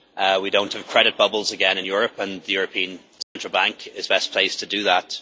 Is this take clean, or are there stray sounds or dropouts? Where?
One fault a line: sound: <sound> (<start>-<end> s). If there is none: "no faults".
sound: dropout (3.2-3.4 s)